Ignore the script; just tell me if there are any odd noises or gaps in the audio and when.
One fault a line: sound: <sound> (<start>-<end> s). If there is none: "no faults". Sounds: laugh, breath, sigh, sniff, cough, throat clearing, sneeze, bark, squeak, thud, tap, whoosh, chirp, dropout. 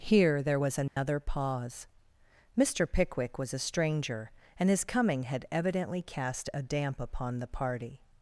sound: dropout (0.9-1.0 s)